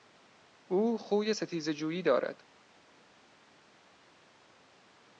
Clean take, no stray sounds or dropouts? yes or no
yes